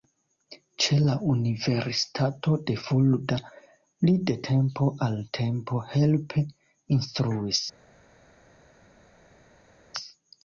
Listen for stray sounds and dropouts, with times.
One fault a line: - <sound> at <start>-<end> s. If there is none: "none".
none